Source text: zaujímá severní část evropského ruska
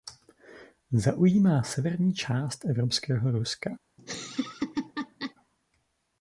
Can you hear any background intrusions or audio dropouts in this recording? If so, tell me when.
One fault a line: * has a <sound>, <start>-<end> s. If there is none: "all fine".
* has a laugh, 4.0-5.3 s